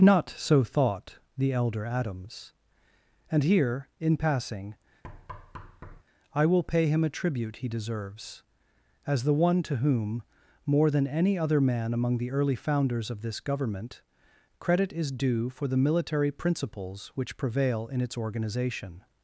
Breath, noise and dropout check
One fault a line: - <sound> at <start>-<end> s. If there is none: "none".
- thud at 5.0-6.0 s